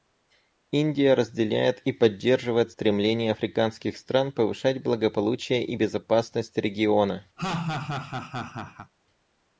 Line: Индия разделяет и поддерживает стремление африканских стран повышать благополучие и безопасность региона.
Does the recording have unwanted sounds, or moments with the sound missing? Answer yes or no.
yes